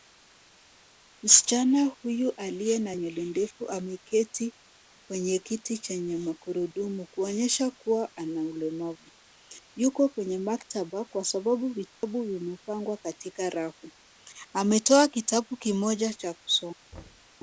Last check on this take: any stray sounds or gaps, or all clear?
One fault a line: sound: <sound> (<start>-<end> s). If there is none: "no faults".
sound: dropout (11.9-12.0 s)
sound: thud (16.9-17.3 s)